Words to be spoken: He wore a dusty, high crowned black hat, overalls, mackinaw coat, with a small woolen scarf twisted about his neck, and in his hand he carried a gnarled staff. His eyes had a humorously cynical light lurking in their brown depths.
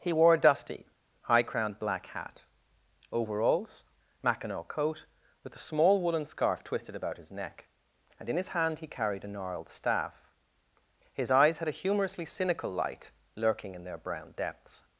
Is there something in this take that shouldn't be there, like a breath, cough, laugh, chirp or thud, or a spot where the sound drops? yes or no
no